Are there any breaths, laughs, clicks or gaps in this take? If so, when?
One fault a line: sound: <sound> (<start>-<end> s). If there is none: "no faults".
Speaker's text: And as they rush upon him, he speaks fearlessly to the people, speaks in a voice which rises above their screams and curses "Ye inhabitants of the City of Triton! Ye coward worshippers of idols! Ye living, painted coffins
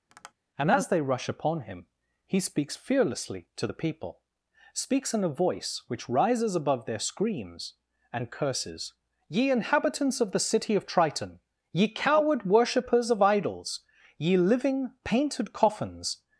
sound: tap (0.1-0.3 s)